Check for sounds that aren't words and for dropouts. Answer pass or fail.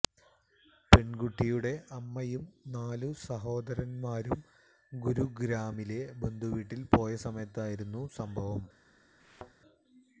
fail